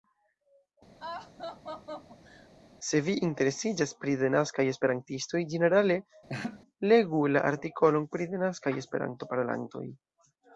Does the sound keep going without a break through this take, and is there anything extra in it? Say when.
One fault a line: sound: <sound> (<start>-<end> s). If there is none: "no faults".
sound: laugh (1.0-2.5 s)
sound: laugh (6.3-6.6 s)